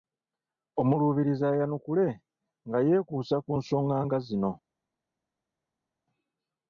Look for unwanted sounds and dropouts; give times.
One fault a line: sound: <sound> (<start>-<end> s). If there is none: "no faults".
no faults